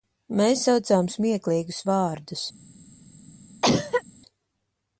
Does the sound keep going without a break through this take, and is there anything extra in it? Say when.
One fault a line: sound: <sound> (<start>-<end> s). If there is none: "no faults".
sound: cough (3.6-4.0 s)